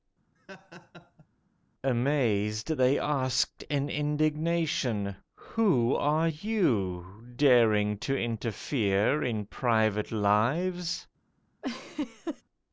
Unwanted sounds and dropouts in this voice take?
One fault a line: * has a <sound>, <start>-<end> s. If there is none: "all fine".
* has a laugh, 0.4-1.3 s
* has a laugh, 11.6-12.4 s